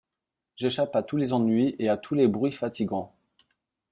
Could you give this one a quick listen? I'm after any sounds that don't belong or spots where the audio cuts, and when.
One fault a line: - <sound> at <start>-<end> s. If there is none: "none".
none